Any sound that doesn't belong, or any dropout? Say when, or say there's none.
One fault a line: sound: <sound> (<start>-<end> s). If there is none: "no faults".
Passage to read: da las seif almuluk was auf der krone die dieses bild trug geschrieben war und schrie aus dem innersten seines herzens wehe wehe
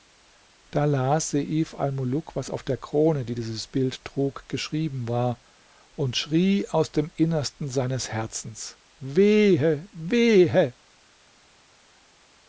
no faults